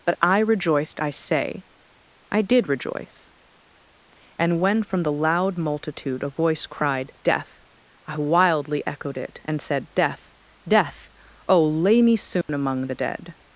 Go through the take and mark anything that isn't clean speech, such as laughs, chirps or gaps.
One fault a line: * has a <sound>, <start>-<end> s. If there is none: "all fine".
* has a dropout, 12.4-12.5 s